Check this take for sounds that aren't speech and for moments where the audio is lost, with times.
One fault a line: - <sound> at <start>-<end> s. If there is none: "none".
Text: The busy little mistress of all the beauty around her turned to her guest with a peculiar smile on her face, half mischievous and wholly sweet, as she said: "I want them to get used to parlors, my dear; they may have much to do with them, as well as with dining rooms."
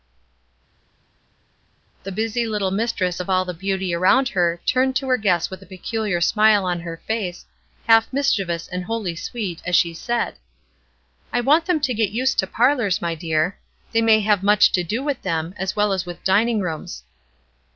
none